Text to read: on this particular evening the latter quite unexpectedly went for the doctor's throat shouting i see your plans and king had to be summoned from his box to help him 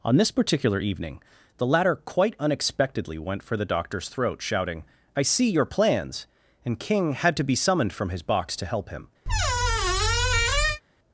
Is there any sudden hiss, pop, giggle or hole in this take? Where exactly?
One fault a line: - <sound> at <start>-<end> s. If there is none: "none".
- squeak at 9.3-10.8 s